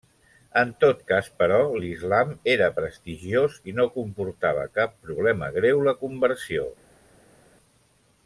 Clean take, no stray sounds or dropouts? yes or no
yes